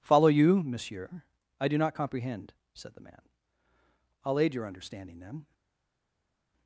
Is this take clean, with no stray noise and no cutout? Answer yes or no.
yes